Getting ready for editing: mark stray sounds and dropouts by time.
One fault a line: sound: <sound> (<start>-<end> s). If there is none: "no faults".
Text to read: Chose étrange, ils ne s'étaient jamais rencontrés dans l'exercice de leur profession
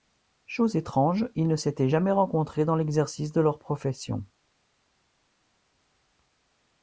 no faults